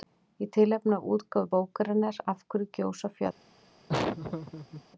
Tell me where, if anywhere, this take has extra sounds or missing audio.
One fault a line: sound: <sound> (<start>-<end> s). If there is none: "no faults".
sound: laugh (3.9-4.8 s)